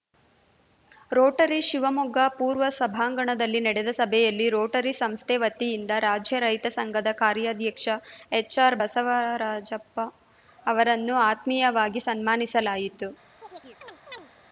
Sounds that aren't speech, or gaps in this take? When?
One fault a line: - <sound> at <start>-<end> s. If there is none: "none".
- chirp at 13.4-14.3 s